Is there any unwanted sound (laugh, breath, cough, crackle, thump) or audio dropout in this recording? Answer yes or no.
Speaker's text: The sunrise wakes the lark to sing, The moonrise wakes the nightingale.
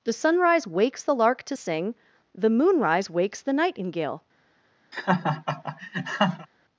yes